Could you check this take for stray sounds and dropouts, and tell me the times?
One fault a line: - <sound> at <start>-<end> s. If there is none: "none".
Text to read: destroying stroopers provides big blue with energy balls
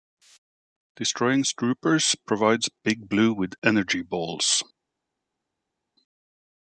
none